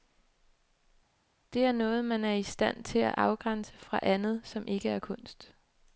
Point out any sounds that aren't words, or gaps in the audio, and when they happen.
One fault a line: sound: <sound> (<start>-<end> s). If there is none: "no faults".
no faults